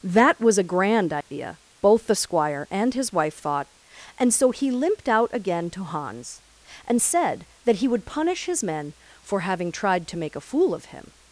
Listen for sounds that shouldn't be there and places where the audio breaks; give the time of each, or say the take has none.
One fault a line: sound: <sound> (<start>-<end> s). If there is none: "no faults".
sound: dropout (1.2-1.3 s)